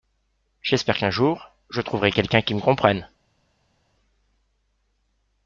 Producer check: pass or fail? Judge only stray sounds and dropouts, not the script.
pass